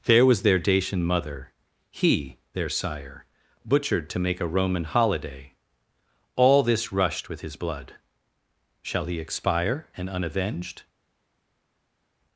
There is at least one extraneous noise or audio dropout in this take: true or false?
false